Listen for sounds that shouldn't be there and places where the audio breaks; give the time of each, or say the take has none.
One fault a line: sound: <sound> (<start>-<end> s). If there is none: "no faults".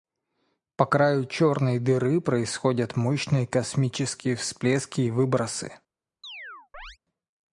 sound: chirp (6.2-7.0 s)